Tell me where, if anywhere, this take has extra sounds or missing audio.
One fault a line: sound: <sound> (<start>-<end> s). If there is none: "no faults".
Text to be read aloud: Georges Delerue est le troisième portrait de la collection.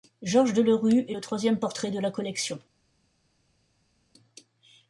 no faults